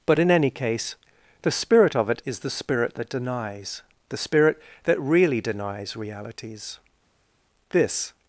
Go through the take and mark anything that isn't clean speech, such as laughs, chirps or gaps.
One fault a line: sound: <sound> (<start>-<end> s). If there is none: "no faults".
no faults